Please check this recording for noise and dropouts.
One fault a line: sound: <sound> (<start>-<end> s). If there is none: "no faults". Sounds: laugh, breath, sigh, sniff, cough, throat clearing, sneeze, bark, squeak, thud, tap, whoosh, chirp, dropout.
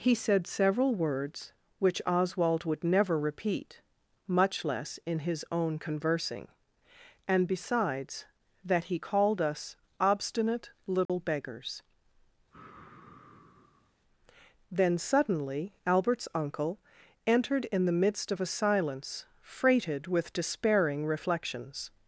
sound: dropout (11.1-11.1 s)
sound: sigh (12.5-13.9 s)